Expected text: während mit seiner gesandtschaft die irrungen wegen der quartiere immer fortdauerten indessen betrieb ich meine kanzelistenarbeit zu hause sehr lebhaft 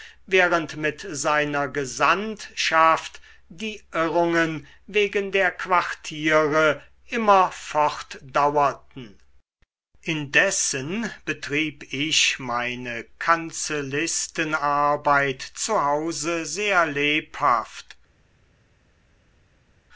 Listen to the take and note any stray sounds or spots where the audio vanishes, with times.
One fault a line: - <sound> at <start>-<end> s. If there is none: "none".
none